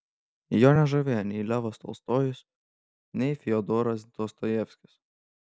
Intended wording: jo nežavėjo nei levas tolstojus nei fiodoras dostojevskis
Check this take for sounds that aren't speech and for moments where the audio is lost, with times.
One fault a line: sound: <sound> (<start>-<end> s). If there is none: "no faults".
no faults